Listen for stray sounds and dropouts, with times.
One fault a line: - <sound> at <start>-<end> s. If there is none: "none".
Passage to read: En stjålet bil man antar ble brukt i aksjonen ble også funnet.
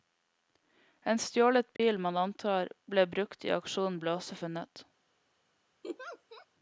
- dropout at 1.8-1.8 s
- laugh at 5.8-6.5 s